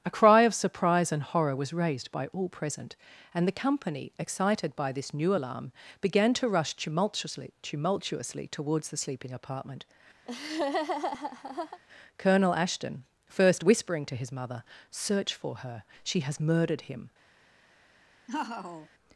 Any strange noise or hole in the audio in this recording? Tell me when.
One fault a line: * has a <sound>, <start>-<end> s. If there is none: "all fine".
* has a laugh, 10.2-11.8 s
* has a laugh, 18.3-18.9 s